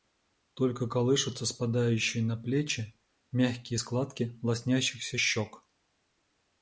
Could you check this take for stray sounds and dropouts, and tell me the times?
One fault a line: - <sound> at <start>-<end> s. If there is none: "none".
none